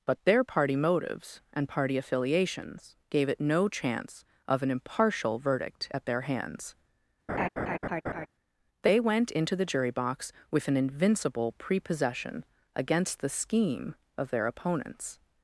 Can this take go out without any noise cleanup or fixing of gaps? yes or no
no